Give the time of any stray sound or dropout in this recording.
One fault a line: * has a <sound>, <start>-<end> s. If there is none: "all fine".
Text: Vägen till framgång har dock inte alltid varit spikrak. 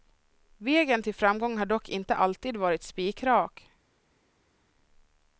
all fine